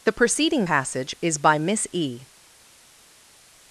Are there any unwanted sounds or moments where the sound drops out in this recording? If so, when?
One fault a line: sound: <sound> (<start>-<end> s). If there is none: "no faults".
no faults